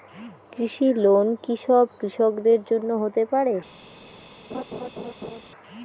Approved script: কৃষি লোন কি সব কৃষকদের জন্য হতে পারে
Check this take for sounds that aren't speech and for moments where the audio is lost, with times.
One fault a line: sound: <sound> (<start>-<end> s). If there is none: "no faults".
sound: laugh (4.5-5.4 s)